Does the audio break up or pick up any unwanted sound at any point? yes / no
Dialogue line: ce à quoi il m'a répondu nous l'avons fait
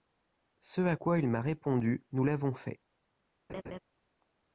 yes